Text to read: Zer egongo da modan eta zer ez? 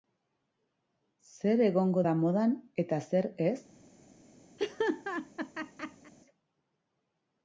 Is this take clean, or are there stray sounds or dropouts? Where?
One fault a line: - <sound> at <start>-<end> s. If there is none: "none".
- laugh at 4.6-6.1 s